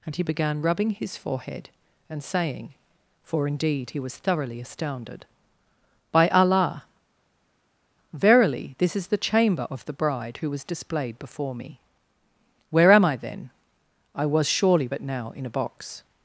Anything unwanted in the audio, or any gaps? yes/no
no